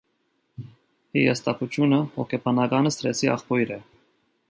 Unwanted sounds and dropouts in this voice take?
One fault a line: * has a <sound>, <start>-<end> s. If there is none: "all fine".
all fine